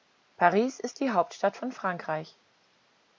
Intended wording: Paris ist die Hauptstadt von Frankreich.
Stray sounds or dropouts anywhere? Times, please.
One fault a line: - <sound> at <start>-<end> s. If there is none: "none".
none